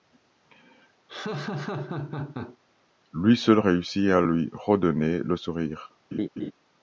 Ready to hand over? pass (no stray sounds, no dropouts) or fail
fail